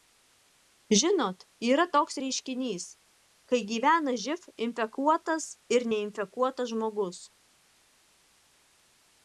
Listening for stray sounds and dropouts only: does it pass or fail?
pass